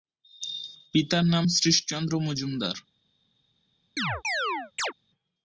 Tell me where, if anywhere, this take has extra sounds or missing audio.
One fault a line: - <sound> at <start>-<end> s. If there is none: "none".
- chirp at 4.0-4.9 s